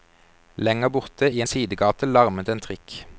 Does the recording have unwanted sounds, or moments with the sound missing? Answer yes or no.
no